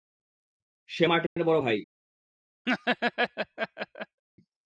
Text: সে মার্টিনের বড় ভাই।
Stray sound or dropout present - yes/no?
yes